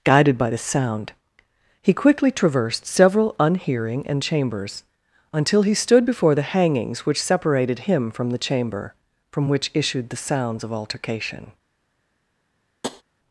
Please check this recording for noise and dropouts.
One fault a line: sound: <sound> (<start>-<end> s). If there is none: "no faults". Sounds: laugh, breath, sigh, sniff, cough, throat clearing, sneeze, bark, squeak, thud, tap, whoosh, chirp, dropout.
sound: tap (12.8-13.0 s)